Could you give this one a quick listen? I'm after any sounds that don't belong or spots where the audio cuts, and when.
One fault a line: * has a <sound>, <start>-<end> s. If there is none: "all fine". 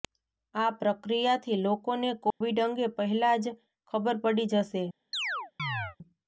* has a dropout, 2.3-2.4 s
* has a chirp, 5.1-6.0 s